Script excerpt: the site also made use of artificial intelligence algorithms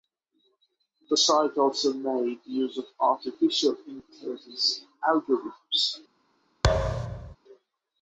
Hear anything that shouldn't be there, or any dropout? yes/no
yes